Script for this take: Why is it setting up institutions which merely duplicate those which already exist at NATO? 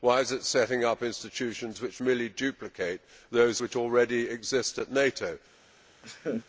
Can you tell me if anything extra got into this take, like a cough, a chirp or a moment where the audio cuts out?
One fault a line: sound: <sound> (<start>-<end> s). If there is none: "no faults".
sound: laugh (6.0-6.5 s)